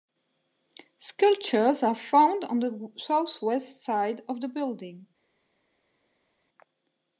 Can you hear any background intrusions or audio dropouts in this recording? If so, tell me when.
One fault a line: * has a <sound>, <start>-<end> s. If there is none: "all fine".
all fine